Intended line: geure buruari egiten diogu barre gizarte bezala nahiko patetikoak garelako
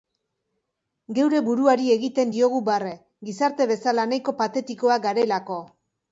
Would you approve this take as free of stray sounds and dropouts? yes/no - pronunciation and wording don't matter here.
yes